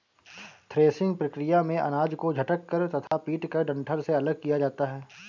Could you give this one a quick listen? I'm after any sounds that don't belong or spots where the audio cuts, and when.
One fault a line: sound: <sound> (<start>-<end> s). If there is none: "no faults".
sound: dropout (3.1-3.1 s)